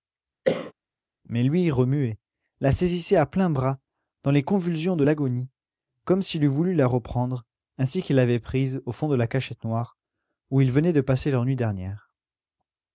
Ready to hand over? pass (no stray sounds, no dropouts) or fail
fail